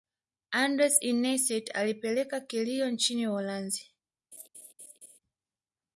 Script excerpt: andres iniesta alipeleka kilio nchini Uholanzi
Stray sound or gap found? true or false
true